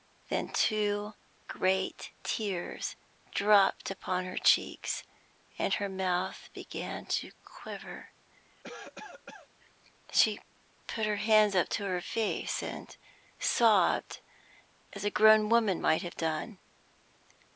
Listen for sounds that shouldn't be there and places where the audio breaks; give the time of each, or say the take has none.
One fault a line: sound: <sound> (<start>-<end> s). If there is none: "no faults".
sound: cough (8.6-9.5 s)